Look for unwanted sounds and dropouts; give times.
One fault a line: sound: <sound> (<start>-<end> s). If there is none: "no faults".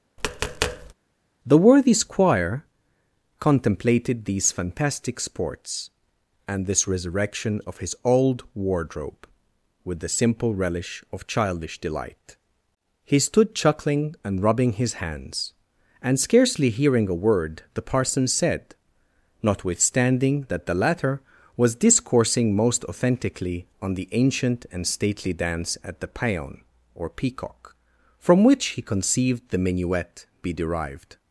sound: tap (0.2-0.9 s)